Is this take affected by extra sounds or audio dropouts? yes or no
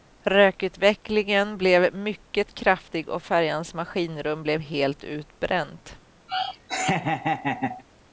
yes